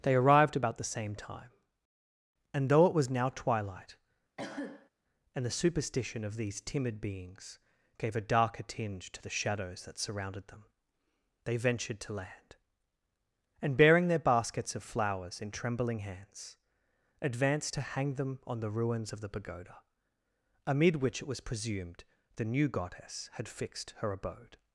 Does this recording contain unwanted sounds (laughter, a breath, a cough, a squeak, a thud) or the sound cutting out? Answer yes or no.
yes